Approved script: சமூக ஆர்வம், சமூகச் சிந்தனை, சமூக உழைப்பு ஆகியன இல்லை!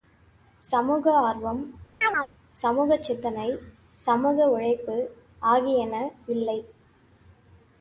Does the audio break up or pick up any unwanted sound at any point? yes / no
yes